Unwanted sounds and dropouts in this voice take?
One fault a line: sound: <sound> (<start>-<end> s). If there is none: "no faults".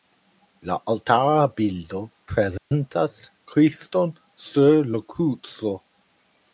sound: dropout (2.6-2.7 s)